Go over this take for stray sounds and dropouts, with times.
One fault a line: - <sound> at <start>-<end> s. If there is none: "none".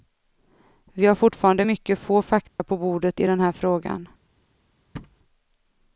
- dropout at 2.5-2.6 s
- thud at 4.9-5.2 s